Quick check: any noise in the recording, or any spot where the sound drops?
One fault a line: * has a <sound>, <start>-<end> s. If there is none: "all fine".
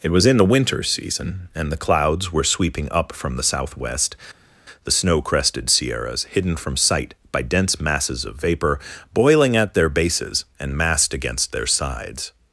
all fine